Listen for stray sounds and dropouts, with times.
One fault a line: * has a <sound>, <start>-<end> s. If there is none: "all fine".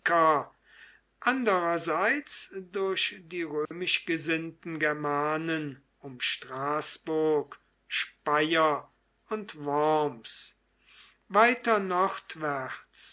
* has a dropout, 3.6-3.7 s